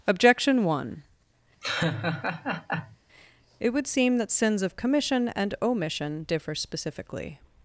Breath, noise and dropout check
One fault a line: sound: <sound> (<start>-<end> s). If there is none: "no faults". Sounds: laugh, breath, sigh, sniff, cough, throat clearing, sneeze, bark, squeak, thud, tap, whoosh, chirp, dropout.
sound: laugh (1.6-3.0 s)